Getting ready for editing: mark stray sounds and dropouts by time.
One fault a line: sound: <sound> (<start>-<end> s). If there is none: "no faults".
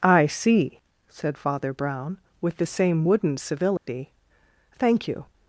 sound: dropout (3.8-3.9 s)